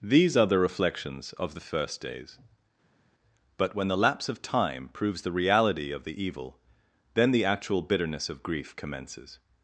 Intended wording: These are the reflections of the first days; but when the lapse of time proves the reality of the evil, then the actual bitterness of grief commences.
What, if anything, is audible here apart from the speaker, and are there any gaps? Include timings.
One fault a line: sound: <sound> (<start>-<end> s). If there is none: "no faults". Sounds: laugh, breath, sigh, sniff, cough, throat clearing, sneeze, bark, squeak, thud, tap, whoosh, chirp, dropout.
no faults